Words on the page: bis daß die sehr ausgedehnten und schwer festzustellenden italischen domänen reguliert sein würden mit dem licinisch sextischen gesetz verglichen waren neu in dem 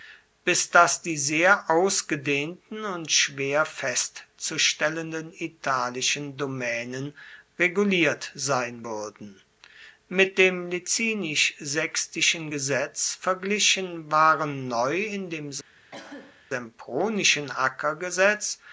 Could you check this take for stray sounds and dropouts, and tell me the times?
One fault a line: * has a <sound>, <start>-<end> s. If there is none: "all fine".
* has a cough, 15.9-16.4 s